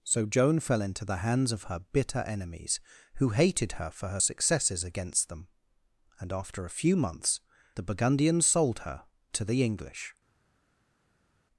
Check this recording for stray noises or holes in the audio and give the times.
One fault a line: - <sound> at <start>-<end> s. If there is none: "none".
none